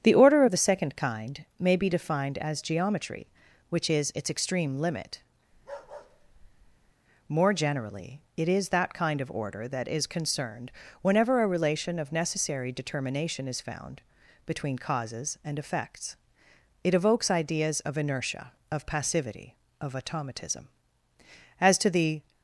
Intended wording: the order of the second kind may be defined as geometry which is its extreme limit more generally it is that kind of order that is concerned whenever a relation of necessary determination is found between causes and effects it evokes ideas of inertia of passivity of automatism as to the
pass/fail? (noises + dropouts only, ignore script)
fail